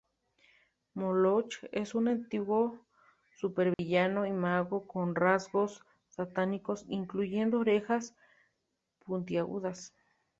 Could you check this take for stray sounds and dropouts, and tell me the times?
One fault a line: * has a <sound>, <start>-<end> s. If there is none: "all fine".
* has a dropout, 3.7-3.8 s